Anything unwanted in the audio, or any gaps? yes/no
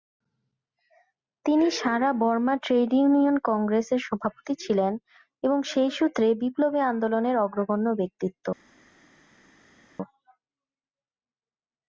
no